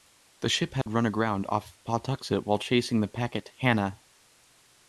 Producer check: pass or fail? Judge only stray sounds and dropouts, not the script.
fail